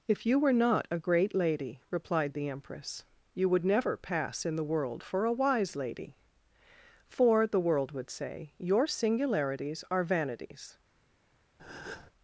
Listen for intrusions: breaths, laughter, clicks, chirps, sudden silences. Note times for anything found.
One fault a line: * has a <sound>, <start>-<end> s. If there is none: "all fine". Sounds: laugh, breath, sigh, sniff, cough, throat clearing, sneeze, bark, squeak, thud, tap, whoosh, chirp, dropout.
* has a breath, 11.6-12.1 s